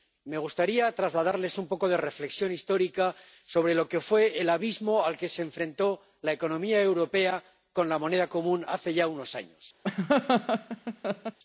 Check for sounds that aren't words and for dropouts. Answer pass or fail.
fail